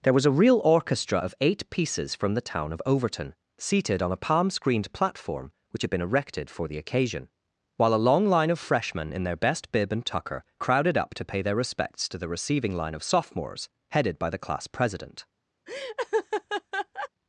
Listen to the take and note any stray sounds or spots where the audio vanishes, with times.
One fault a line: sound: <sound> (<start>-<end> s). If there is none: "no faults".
sound: laugh (15.7-17.1 s)